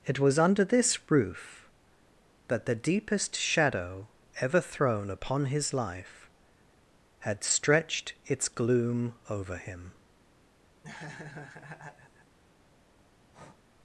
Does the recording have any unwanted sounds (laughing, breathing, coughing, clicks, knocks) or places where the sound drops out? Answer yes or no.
yes